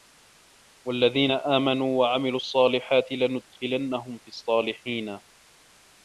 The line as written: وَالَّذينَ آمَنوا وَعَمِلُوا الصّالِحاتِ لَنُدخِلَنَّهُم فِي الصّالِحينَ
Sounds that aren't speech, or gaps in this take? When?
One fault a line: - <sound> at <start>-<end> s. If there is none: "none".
none